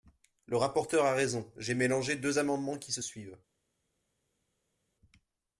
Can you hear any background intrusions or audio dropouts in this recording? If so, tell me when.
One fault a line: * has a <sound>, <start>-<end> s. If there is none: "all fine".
all fine